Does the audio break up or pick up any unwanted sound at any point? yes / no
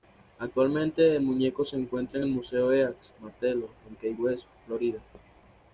no